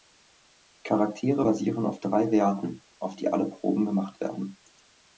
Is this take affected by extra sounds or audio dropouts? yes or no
no